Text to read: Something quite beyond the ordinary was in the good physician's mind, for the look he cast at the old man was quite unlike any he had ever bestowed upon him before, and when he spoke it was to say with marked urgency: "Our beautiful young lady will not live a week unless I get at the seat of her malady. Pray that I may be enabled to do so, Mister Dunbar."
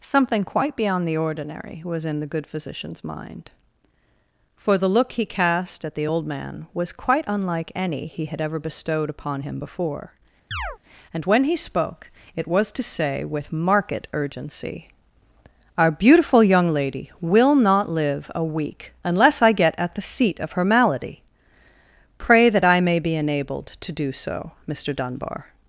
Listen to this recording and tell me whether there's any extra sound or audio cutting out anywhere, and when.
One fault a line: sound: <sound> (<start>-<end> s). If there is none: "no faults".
sound: chirp (10.5-10.8 s)